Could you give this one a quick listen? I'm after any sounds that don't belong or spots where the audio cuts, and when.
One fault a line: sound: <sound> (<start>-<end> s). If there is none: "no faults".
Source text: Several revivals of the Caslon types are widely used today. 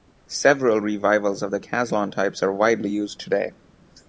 no faults